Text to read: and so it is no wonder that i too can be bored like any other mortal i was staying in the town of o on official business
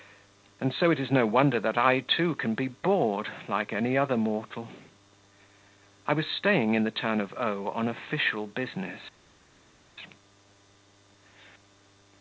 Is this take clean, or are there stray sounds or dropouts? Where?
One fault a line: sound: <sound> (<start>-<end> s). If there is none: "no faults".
no faults